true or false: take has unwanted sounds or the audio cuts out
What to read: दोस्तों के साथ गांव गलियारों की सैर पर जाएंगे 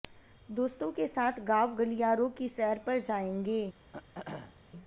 true